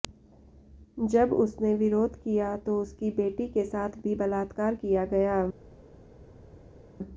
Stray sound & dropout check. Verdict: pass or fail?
pass